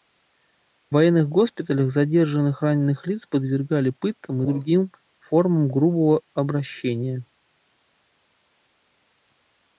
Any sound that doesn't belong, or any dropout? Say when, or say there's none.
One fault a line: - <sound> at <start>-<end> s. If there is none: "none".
none